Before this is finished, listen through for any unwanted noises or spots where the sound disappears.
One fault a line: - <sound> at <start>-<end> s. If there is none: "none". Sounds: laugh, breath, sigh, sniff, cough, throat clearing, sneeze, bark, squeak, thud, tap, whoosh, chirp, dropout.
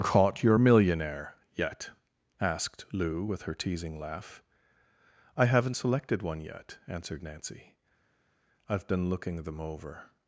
none